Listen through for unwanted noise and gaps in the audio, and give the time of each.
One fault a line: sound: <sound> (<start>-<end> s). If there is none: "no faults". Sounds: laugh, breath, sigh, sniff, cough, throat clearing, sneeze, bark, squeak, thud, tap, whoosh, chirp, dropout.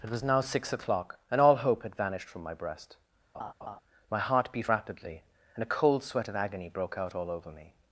sound: laugh (3.3-3.8 s)